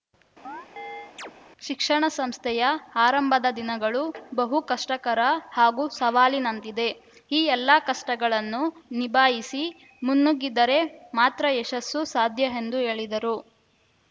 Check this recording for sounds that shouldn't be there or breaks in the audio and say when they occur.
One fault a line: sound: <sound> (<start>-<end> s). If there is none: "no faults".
sound: chirp (0.4-1.3 s)